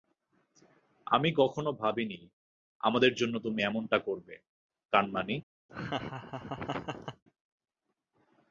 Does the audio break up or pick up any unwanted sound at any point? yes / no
yes